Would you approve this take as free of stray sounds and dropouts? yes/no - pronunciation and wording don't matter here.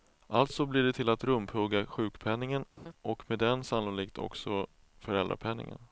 no